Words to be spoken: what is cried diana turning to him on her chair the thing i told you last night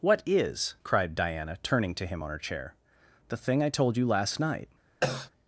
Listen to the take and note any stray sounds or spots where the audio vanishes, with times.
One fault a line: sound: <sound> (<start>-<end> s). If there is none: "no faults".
sound: cough (5.0-5.3 s)